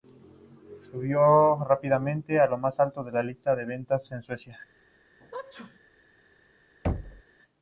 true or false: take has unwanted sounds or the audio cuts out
true